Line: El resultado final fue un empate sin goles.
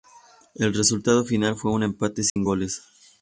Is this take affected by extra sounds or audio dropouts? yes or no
yes